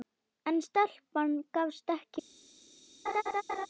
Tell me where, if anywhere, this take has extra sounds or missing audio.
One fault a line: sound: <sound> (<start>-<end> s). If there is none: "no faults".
sound: laugh (3.1-3.7 s)